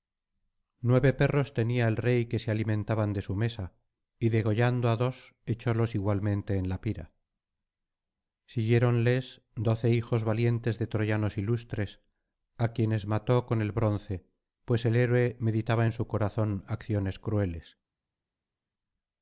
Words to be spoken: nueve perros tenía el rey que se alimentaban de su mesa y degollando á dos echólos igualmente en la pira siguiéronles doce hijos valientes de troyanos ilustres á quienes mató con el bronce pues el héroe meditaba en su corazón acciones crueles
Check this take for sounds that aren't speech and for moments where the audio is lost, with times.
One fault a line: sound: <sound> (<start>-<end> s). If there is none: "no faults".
no faults